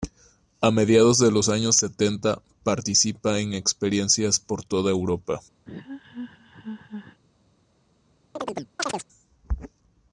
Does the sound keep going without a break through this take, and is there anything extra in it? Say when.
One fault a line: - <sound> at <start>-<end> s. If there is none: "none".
- laugh at 5.7-7.2 s
- chirp at 8.4-9.1 s